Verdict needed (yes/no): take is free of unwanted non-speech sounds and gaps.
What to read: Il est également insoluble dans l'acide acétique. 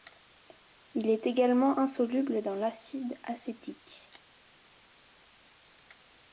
yes